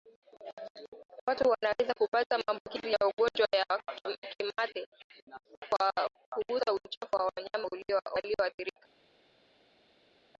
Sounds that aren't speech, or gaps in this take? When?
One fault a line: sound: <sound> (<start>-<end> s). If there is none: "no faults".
no faults